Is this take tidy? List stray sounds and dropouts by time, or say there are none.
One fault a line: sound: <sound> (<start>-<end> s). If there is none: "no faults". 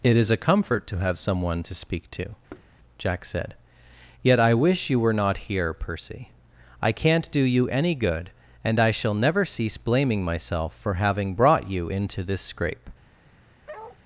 sound: thud (2.5-2.7 s)
sound: bark (13.7-14.0 s)